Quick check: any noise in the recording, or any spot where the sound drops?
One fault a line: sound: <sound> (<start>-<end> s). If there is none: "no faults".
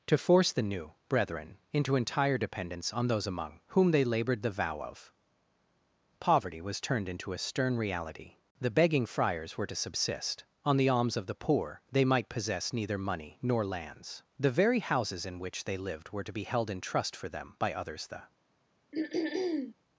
sound: throat clearing (18.9-19.7 s)